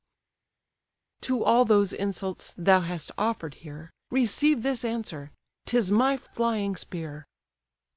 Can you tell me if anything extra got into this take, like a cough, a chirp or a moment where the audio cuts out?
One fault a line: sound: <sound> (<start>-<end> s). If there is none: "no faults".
no faults